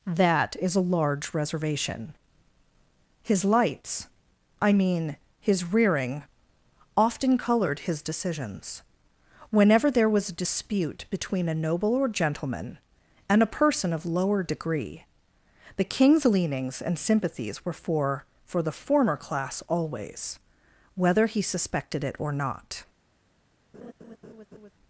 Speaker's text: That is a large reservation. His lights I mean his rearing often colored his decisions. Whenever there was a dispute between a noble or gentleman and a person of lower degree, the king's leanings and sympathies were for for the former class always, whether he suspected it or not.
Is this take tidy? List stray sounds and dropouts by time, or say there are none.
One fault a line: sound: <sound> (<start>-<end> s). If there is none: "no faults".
sound: laugh (23.7-24.7 s)